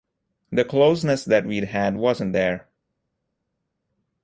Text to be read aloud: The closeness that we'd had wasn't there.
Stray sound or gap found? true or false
false